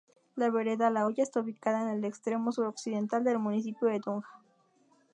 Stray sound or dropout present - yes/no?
no